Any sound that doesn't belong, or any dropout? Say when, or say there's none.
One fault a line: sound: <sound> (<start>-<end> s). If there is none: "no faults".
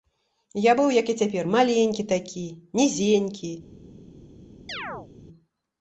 sound: chirp (4.7-5.1 s)